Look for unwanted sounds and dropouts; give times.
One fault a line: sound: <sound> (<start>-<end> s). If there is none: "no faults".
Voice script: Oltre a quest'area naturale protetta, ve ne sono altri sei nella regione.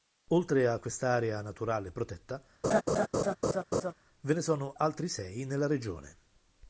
sound: laugh (2.6-3.9 s)